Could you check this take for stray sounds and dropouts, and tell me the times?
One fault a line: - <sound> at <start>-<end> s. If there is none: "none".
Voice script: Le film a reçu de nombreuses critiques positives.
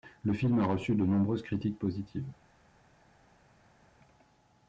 none